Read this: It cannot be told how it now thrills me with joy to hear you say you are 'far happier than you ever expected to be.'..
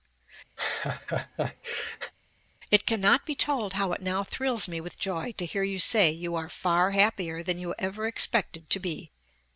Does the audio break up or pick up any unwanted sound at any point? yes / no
yes